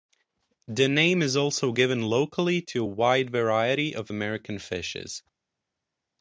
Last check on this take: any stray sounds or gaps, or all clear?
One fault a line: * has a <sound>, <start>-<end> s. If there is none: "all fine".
all fine